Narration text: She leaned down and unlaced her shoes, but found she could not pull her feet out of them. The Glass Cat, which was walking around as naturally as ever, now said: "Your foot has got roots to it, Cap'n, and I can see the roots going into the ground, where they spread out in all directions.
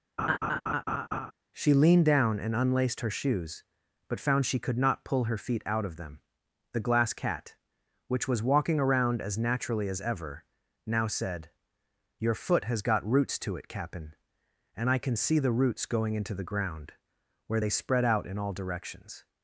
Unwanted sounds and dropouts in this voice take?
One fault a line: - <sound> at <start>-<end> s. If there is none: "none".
- laugh at 0.2-1.3 s